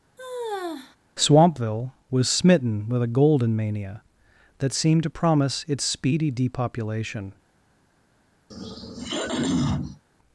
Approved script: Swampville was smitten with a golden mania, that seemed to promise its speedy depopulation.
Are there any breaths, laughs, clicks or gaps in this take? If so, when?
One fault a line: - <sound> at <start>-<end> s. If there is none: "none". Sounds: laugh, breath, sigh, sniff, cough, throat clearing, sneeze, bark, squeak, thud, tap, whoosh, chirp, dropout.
- sigh at 0.2-1.0 s
- throat clearing at 8.5-10.0 s